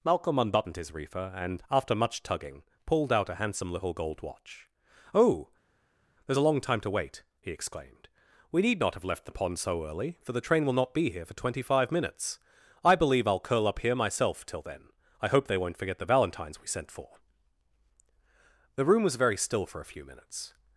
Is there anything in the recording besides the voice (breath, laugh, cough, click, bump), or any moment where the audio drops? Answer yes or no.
no